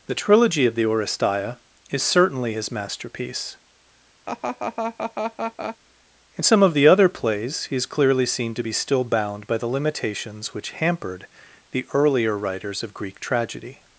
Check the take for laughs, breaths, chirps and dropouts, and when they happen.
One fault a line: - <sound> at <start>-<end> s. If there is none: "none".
- laugh at 4.3-5.8 s